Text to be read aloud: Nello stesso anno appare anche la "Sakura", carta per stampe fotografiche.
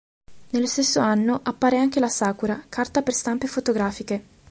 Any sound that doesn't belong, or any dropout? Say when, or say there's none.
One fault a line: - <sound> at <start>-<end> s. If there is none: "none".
none